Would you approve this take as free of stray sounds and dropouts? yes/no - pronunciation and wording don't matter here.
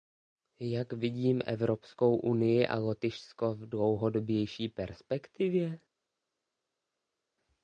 yes